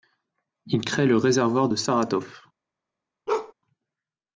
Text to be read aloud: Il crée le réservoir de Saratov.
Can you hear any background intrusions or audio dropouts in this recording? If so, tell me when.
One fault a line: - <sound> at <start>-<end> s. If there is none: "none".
- bark at 3.3-3.5 s